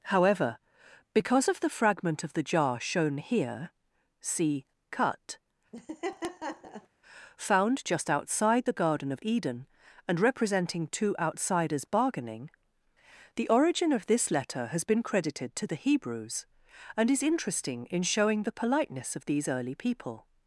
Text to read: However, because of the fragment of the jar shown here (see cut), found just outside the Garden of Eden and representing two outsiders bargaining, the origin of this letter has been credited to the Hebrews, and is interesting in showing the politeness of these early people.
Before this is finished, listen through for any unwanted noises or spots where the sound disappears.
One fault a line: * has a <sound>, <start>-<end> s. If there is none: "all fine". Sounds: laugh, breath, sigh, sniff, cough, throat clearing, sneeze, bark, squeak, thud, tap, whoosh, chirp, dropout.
* has a laugh, 5.7-6.9 s